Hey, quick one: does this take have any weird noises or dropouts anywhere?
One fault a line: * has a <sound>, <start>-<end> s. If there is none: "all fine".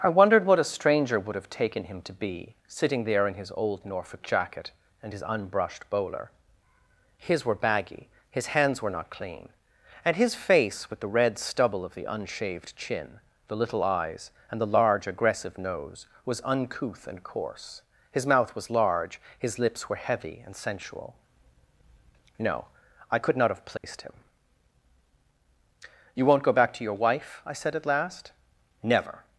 * has a dropout, 23.8-23.8 s